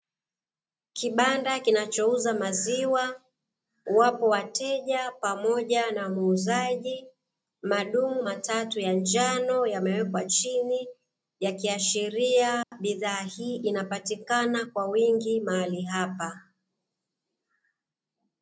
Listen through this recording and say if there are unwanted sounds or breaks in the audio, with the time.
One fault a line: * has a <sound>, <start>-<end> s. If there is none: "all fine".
* has a dropout, 12.6-12.7 s